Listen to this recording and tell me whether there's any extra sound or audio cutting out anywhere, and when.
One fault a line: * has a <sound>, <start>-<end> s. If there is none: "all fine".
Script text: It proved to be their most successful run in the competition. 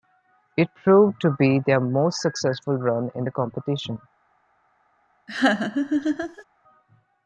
* has a laugh, 5.3-6.4 s